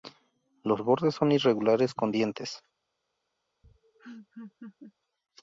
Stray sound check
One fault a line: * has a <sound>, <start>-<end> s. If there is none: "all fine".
* has a laugh, 3.6-4.9 s